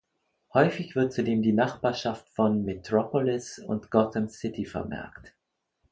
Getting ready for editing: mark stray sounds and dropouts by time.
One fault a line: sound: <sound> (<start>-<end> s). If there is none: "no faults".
no faults